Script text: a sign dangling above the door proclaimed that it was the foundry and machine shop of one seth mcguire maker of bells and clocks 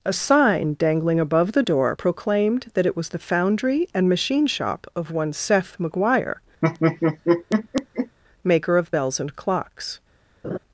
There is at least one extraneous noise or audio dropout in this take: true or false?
true